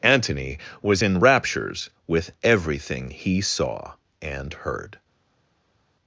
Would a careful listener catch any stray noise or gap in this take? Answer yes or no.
no